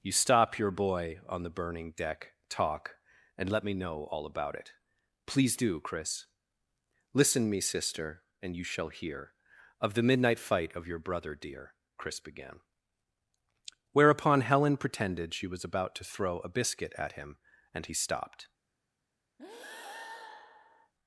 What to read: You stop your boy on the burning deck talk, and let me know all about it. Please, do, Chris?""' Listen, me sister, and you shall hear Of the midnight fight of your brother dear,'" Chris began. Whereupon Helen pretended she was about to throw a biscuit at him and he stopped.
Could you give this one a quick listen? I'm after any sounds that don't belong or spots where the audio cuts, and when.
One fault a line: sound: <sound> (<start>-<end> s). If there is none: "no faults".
sound: breath (19.4-20.9 s)